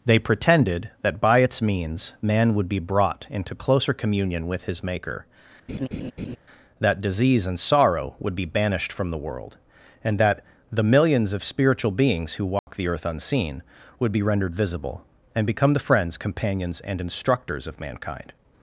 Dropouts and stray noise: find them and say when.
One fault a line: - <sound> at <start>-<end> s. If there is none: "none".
- laugh at 5.7-6.4 s
- dropout at 12.6-12.7 s